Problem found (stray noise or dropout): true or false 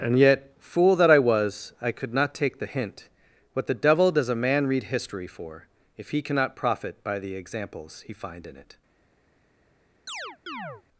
true